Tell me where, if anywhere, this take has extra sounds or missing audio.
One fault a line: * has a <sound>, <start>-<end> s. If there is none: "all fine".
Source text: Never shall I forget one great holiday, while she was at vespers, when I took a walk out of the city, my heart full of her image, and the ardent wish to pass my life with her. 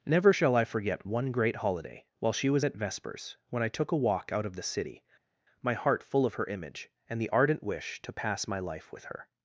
all fine